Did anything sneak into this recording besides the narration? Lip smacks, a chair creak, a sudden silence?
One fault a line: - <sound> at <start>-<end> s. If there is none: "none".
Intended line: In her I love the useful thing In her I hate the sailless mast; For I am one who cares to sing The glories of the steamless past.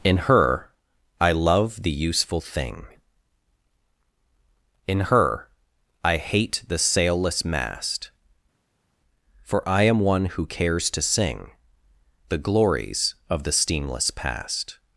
none